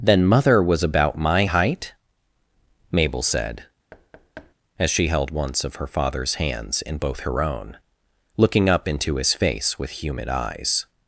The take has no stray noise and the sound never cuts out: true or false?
false